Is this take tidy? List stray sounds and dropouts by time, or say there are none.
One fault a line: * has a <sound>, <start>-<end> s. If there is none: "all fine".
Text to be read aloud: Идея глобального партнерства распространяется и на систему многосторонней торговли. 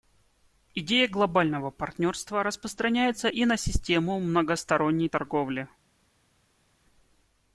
all fine